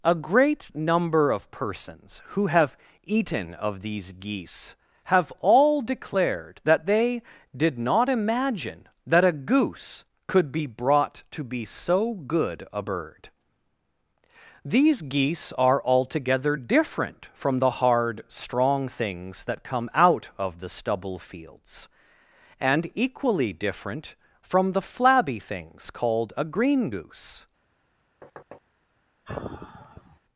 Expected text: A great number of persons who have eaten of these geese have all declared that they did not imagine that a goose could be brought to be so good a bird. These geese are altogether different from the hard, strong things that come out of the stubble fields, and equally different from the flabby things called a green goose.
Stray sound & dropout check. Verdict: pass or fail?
fail